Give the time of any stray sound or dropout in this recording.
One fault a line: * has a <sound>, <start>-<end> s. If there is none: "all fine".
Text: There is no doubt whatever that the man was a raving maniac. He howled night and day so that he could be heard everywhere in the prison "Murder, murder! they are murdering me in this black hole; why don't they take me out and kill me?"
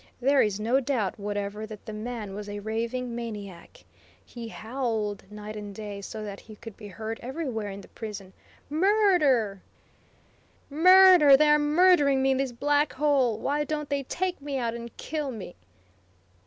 all fine